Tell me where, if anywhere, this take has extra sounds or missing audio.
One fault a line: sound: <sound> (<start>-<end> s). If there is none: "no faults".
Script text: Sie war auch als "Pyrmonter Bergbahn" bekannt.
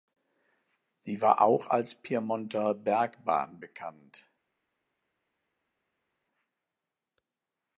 no faults